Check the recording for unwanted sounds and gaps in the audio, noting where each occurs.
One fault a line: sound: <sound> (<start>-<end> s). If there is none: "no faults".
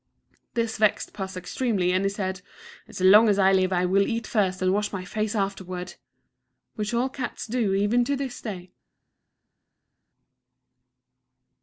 no faults